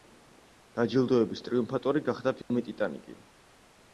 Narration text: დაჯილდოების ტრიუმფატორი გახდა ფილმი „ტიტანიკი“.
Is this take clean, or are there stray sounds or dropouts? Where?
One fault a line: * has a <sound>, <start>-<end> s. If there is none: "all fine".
* has a dropout, 2.4-2.5 s